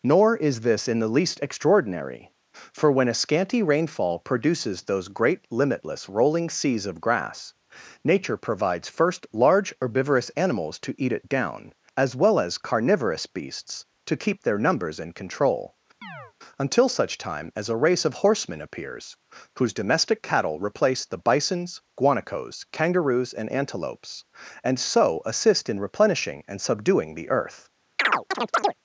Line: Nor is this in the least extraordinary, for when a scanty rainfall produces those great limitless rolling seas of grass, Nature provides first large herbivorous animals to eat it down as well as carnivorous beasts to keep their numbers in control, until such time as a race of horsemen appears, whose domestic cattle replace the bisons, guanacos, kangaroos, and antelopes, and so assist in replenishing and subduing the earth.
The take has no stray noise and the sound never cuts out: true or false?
false